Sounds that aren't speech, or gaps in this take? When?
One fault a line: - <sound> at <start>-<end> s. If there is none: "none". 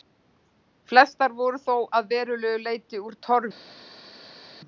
none